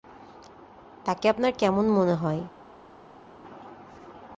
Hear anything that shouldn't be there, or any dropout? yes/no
no